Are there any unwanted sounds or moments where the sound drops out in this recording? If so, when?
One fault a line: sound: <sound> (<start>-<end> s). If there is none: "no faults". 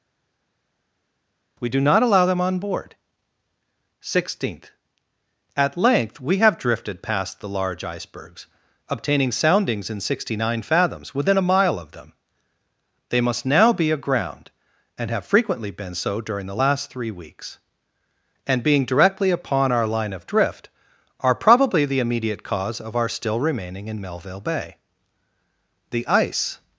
no faults